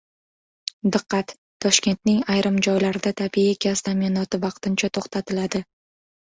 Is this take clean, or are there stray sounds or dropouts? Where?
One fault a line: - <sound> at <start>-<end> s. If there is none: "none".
none